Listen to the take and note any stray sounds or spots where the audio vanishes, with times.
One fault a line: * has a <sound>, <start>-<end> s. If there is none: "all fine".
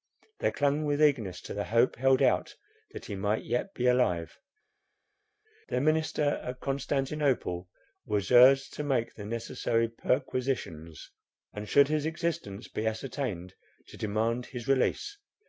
all fine